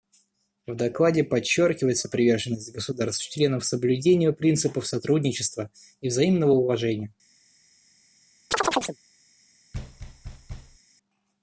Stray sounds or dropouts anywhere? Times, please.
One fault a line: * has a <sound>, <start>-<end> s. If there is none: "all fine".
* has a chirp, 8.5-9.0 s
* has a thud, 9.7-10.8 s